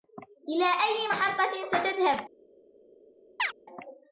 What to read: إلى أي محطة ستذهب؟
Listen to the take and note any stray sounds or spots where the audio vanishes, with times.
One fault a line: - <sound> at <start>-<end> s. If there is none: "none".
- chirp at 3.4-3.5 s